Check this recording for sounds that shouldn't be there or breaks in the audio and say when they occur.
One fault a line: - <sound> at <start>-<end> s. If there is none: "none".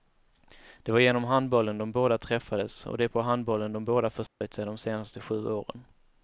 - dropout at 4.3-4.4 s